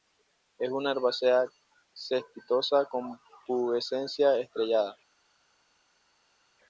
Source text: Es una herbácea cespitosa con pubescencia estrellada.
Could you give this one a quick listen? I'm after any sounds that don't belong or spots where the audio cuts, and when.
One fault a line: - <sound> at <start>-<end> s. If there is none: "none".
none